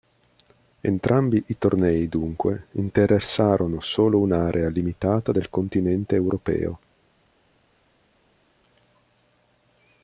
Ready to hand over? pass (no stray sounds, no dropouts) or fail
pass